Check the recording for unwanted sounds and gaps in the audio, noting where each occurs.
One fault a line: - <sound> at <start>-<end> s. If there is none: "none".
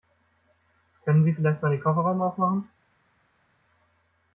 none